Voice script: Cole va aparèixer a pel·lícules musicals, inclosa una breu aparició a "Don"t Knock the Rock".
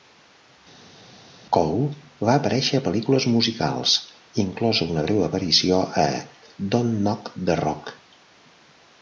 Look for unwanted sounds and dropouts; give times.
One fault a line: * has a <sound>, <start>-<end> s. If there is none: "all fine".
all fine